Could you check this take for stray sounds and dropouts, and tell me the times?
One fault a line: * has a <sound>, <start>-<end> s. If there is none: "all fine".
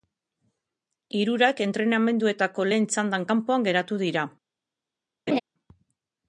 * has a laugh, 5.3-5.4 s